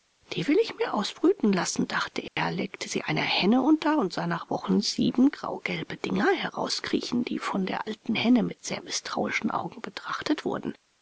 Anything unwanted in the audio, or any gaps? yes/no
yes